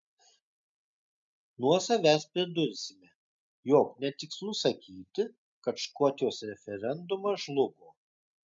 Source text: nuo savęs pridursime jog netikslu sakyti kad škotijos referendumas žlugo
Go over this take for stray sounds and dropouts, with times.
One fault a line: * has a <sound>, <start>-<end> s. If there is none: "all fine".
all fine